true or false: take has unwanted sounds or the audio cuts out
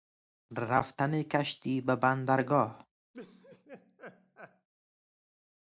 true